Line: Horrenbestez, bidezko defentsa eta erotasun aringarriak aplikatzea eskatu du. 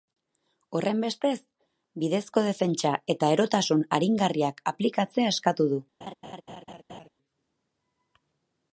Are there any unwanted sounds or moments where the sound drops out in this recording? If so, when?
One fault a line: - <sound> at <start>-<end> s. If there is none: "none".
- laugh at 6.0-7.1 s